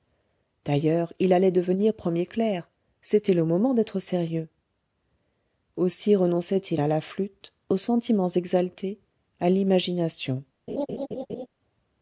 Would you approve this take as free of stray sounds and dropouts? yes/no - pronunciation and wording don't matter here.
no